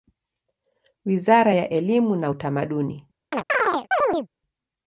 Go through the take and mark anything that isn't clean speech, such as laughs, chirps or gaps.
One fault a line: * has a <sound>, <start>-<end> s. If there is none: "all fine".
* has a chirp, 3.3-4.3 s